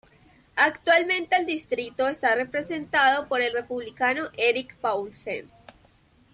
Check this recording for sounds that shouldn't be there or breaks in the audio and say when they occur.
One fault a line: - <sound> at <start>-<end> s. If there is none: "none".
none